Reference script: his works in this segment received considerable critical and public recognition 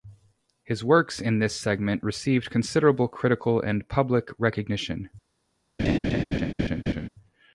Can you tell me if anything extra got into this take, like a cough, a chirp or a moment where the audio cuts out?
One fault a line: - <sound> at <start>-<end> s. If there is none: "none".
- laugh at 5.8-7.1 s